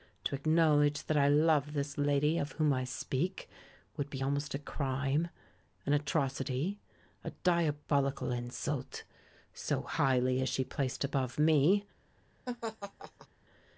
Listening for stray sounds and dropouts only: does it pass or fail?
fail